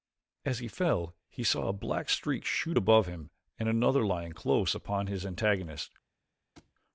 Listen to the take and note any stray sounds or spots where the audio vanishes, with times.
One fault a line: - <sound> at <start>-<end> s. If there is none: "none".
- thud at 6.6-6.7 s